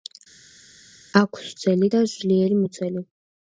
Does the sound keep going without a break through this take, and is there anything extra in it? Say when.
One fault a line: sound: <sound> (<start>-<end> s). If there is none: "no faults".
no faults